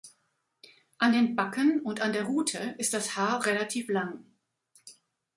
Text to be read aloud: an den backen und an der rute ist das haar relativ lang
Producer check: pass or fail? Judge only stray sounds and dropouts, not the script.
pass